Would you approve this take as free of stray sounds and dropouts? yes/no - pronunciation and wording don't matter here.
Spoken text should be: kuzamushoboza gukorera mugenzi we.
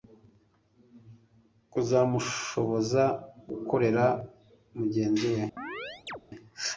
no